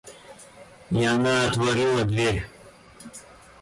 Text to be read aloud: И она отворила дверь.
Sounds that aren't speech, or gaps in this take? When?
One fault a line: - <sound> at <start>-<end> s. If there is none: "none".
none